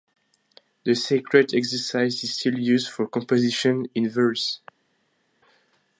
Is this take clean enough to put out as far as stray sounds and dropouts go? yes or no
yes